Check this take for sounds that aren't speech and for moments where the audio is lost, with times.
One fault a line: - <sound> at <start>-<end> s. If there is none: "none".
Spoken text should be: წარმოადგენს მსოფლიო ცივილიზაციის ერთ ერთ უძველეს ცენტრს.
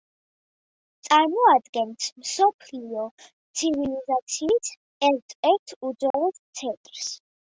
- dropout at 6.1-6.1 s